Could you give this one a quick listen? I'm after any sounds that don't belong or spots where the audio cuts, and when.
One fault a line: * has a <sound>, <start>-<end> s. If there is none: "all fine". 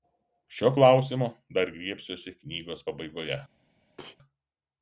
* has a sneeze, 4.0-4.2 s